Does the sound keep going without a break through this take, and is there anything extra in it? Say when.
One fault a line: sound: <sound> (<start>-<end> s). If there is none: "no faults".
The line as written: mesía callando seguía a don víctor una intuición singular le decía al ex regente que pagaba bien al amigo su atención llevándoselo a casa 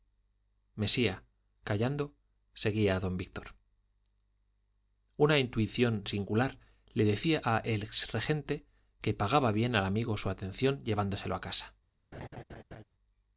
sound: laugh (12.1-12.8 s)